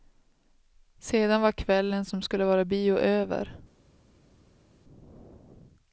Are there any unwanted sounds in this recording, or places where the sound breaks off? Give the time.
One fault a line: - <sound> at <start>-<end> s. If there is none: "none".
none